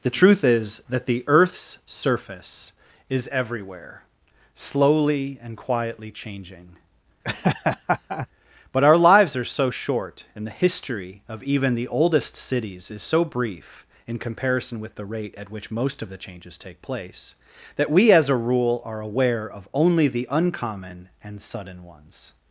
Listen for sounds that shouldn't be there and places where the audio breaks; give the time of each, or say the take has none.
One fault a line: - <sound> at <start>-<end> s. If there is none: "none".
- laugh at 7.2-8.3 s